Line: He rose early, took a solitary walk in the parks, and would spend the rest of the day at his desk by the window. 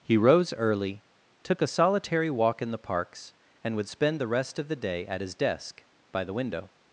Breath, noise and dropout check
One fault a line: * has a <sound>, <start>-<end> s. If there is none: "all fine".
all fine